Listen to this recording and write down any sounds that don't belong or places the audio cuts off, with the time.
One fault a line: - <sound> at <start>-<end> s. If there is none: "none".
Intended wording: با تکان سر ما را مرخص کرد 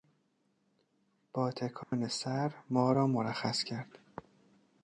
- dropout at 1.8-1.9 s